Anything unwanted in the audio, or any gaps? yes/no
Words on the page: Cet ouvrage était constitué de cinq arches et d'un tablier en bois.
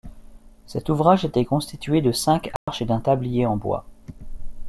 yes